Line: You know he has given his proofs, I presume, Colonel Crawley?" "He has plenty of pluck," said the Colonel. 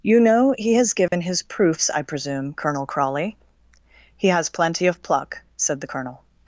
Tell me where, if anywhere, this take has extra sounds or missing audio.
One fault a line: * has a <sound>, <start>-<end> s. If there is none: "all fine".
* has a dropout, 1.1-1.1 s